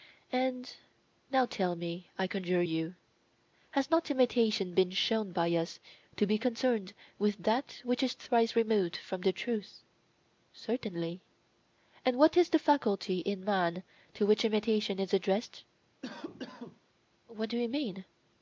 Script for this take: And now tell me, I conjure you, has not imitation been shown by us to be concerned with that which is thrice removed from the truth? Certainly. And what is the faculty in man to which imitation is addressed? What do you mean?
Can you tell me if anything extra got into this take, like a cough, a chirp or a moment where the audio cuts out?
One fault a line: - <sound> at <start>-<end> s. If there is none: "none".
- cough at 16.0-16.8 s